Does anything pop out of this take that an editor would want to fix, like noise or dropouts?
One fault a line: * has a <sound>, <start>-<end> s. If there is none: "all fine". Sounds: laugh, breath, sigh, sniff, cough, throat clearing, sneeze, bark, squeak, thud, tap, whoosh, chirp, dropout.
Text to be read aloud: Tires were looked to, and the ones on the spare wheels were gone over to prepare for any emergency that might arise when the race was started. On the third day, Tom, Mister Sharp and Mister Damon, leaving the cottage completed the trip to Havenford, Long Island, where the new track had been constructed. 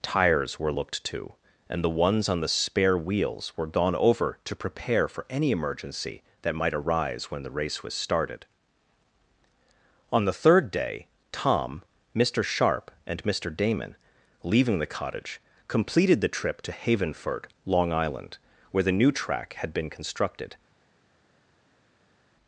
all fine